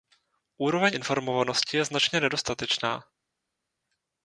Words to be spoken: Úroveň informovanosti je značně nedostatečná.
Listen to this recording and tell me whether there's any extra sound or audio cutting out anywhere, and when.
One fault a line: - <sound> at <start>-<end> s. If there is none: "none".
none